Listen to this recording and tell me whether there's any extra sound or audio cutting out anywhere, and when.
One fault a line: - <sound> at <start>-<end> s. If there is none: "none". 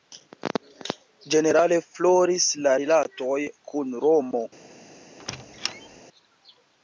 - squeak at 5.2-6.0 s